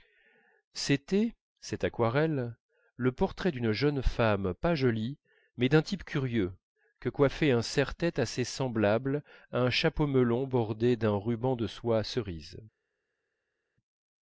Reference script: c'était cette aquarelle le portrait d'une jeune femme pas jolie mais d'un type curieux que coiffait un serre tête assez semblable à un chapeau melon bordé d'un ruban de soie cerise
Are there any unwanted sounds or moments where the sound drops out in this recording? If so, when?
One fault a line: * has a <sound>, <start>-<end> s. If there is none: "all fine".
all fine